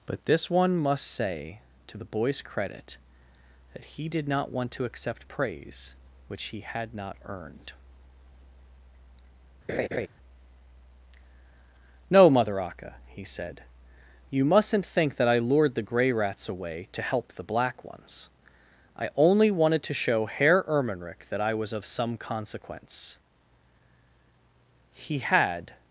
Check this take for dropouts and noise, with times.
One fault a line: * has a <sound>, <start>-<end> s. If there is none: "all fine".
* has a laugh, 9.7-10.1 s